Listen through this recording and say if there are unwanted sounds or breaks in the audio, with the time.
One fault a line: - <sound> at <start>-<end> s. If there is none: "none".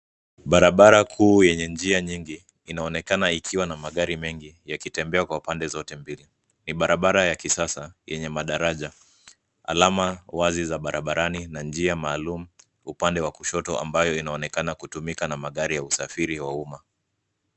none